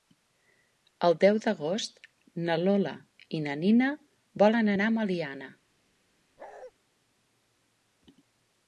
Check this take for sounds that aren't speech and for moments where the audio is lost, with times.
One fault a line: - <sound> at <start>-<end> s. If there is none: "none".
- bark at 6.4-6.7 s